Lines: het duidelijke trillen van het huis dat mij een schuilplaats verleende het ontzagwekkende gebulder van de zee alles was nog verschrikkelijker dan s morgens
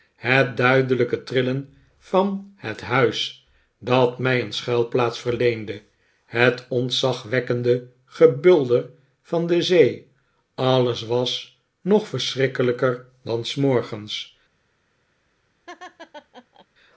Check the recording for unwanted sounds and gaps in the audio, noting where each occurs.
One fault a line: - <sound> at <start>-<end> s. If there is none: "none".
- laugh at 15.7-16.7 s